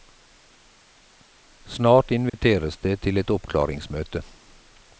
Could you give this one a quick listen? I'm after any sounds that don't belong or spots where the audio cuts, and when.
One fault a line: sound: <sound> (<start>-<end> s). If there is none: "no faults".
sound: dropout (2.3-2.3 s)